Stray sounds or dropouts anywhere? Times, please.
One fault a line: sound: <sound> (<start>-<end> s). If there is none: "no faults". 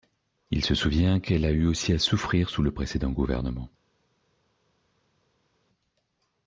no faults